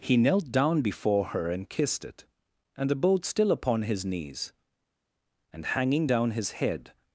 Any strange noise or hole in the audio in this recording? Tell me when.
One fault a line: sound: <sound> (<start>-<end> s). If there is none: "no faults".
no faults